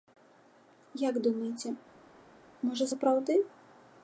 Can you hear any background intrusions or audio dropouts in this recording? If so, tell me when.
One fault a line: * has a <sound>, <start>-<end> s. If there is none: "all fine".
all fine